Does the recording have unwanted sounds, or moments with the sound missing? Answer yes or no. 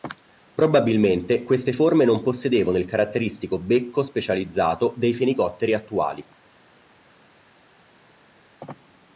no